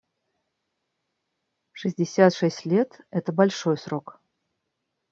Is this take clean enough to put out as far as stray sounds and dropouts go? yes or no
yes